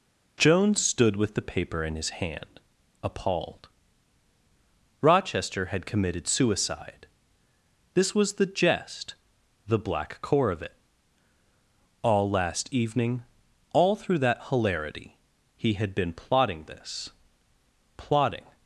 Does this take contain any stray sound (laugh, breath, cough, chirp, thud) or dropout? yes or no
no